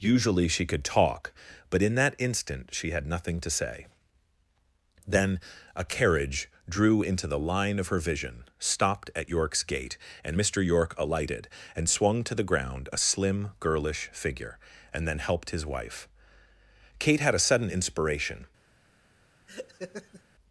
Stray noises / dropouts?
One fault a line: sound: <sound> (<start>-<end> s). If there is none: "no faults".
sound: laugh (19.5-20.2 s)